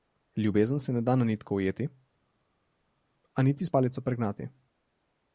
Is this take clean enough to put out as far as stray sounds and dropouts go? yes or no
yes